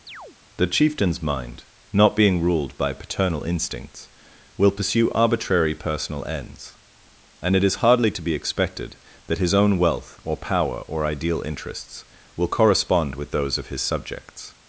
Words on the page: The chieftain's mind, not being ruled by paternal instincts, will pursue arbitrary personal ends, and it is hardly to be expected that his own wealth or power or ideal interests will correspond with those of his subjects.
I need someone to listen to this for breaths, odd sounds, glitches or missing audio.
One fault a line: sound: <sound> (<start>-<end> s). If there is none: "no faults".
sound: chirp (0.1-0.4 s)